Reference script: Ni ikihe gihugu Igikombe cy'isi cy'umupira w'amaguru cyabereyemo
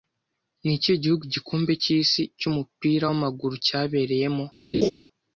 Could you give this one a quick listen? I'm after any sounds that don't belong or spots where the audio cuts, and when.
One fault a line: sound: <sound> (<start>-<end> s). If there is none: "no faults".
sound: laugh (4.7-4.9 s)